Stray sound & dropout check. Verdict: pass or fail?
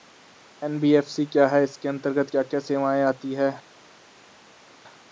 pass